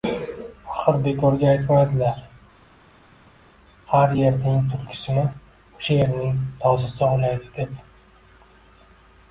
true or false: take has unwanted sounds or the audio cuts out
false